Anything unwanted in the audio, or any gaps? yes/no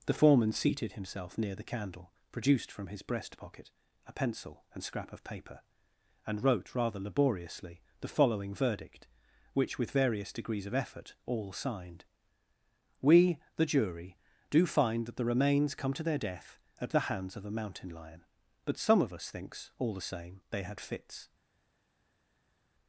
no